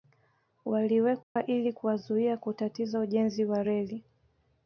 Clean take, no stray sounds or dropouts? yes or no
no